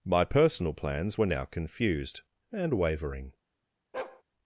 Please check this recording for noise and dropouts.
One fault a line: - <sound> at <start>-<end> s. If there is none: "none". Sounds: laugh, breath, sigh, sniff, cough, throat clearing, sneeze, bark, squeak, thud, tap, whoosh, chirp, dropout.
- bark at 3.9-4.2 s